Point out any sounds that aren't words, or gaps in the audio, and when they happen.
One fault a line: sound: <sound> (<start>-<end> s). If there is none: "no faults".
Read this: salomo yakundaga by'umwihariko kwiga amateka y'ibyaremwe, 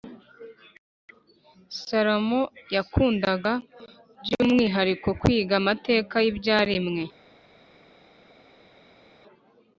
no faults